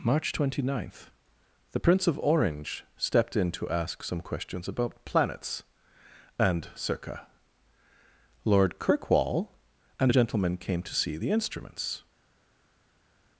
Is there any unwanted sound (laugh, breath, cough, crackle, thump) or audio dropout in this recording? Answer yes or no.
no